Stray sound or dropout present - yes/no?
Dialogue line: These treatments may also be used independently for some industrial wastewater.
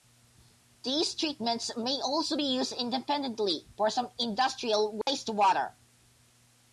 yes